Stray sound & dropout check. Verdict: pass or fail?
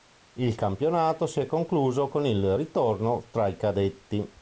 pass